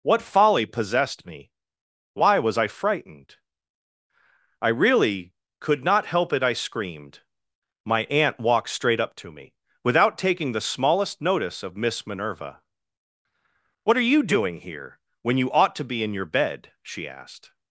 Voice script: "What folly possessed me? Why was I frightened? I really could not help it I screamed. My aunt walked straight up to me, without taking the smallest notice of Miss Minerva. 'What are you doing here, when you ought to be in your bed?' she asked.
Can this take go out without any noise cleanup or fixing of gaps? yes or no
yes